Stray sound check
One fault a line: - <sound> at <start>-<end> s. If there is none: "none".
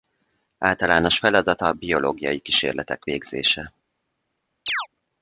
- chirp at 4.7-4.9 s